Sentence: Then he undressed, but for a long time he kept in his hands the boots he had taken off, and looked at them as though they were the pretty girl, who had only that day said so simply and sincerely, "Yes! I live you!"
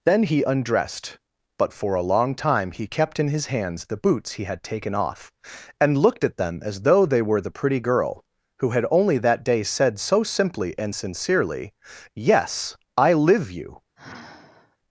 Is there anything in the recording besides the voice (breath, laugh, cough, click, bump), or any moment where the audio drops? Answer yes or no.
yes